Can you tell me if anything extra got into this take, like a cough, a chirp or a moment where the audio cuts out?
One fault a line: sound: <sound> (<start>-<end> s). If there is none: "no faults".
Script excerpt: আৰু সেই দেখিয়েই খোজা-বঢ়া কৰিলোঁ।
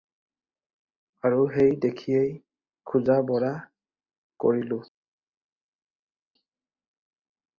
no faults